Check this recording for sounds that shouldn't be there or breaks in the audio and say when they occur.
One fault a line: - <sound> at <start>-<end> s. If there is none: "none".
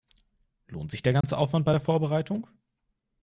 - dropout at 1.2-1.2 s